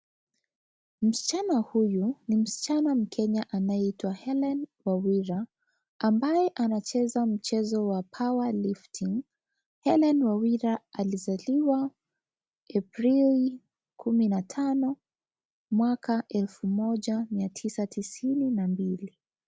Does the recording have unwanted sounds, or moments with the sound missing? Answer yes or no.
no